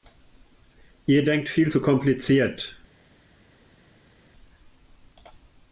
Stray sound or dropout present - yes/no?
no